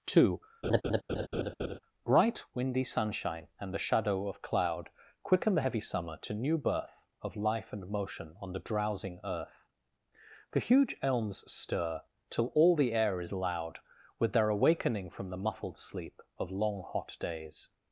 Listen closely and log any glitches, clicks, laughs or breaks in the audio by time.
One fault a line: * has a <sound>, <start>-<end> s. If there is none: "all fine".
* has a laugh, 0.6-1.8 s